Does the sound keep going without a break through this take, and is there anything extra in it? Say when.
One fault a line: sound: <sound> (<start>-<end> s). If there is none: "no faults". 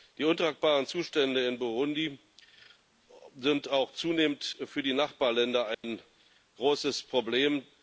sound: dropout (5.7-5.8 s)